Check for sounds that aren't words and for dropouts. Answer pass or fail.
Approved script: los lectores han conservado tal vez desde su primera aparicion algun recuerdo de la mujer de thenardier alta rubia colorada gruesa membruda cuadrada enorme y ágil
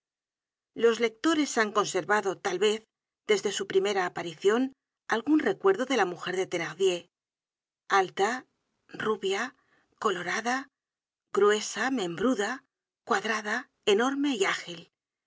pass